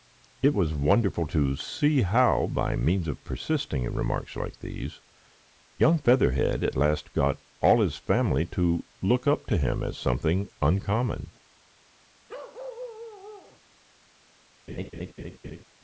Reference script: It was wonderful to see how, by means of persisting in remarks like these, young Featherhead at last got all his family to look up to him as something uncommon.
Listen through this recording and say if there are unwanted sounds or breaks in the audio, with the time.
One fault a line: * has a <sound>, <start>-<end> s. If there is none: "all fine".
* has a bark, 12.3-13.6 s
* has a laugh, 14.7-15.7 s